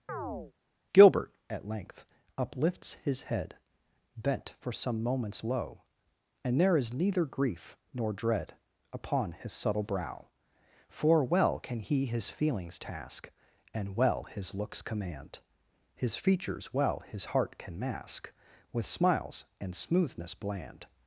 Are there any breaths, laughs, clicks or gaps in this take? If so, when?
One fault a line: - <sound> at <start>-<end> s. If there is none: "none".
- chirp at 0.1-0.5 s